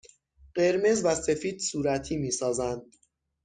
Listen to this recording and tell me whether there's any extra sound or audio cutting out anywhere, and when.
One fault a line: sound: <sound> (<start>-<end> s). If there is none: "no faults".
no faults